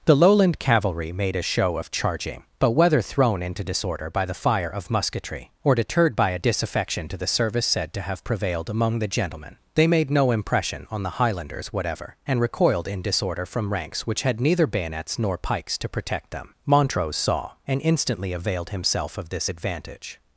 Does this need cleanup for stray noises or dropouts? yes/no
no